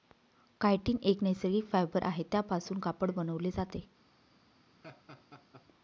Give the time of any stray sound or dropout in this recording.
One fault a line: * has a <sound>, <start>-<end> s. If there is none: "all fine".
* has a laugh, 4.8-5.7 s